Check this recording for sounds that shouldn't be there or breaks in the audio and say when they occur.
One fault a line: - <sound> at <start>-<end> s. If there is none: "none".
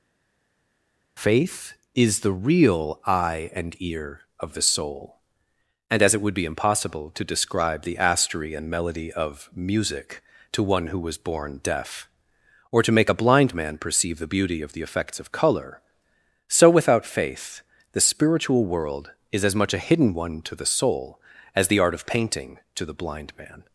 none